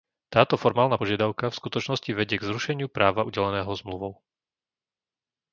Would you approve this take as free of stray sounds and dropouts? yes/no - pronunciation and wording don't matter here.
yes